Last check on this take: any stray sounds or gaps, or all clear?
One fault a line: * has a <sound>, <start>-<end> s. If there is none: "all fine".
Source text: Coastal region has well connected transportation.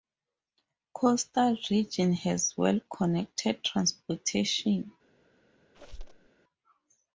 * has a squeak, 5.7-6.3 s